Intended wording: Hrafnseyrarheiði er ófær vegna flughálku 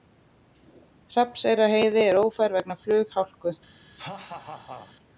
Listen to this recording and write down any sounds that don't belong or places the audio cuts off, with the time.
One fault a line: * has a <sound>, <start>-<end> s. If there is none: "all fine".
* has a laugh, 3.9-5.0 s